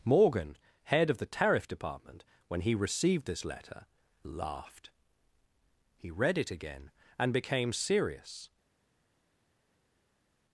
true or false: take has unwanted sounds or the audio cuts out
false